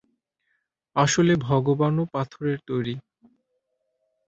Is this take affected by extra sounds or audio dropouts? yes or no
no